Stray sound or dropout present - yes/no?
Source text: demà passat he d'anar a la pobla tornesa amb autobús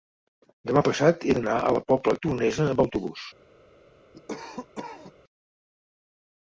yes